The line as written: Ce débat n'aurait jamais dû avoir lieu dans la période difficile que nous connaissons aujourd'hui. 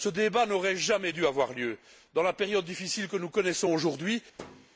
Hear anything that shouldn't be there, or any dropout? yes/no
yes